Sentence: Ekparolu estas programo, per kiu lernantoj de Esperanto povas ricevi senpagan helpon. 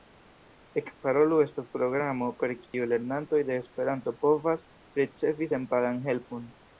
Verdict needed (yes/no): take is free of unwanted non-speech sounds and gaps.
no